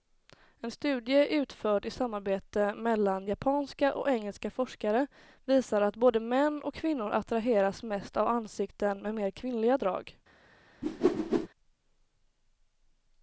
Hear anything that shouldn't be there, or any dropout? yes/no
yes